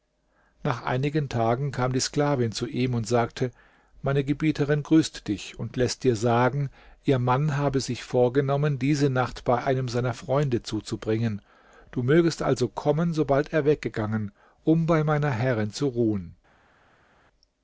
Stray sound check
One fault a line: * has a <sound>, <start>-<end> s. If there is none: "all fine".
all fine